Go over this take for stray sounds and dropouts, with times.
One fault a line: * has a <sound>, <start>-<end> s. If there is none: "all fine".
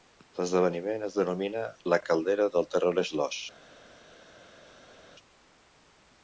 all fine